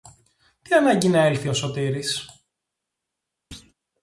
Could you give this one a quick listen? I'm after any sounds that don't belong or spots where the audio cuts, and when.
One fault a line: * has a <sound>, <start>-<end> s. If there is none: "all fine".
* has a thud, 3.5-3.7 s